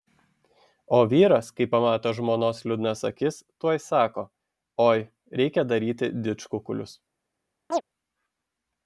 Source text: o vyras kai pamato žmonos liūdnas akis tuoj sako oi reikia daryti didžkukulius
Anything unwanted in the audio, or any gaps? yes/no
yes